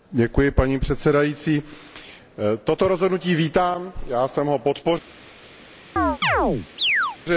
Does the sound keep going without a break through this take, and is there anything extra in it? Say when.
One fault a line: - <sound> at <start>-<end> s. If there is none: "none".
- chirp at 6.0-7.2 s